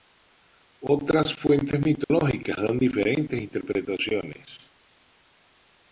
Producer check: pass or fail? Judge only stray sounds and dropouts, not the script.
fail